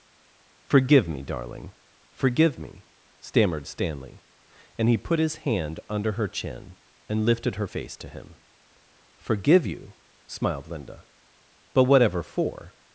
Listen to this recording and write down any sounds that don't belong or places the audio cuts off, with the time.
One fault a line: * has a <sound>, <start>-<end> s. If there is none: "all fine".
all fine